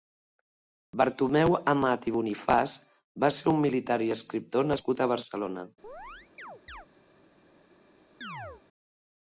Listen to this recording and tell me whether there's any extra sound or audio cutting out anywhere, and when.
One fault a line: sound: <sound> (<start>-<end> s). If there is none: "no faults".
sound: chirp (5.8-6.9 s)
sound: chirp (8.2-8.6 s)